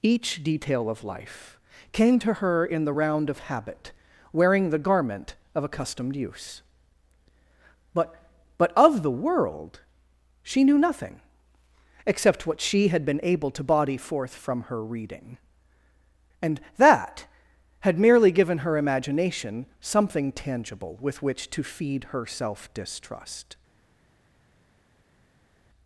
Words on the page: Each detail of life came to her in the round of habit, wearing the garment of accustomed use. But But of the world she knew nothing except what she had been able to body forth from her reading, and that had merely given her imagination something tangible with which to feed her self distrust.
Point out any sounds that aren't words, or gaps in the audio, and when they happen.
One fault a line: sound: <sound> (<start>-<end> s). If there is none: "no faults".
no faults